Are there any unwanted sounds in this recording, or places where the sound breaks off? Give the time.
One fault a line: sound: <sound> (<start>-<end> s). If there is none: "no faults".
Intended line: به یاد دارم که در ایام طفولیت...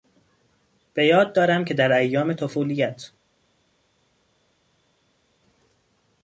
no faults